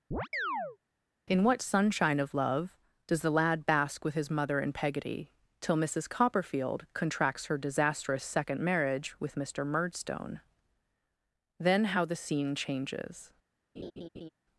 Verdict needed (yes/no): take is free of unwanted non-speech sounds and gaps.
no